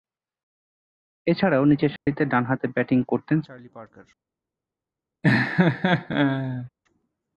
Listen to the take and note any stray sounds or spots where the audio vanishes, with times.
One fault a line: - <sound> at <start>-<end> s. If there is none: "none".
- dropout at 2.0-2.1 s
- laugh at 5.2-6.7 s